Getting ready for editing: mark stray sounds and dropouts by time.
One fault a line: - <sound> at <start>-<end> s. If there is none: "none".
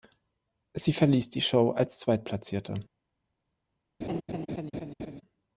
- laugh at 4.0-5.2 s